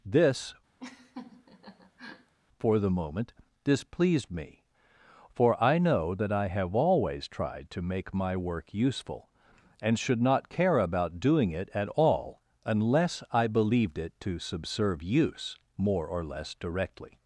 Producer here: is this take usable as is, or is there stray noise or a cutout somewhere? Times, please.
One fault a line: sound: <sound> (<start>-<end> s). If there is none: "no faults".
sound: laugh (0.8-2.3 s)